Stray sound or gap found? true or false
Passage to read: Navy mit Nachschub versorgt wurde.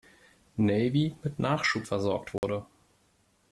true